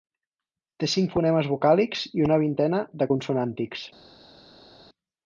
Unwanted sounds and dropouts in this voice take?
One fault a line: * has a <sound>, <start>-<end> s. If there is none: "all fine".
all fine